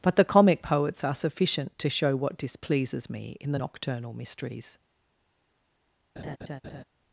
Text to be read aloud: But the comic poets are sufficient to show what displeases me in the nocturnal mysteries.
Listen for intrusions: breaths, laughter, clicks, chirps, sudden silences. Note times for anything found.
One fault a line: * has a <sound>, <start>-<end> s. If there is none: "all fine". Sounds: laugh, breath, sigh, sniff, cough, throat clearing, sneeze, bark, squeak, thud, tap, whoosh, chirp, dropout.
* has a laugh, 6.2-6.8 s